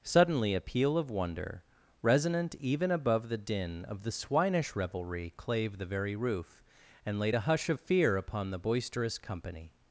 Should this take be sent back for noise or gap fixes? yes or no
no